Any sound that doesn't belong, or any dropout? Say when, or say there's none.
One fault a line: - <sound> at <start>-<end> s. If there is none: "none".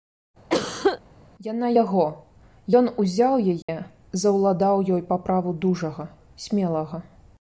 - cough at 0.5-1.0 s
- dropout at 3.6-3.7 s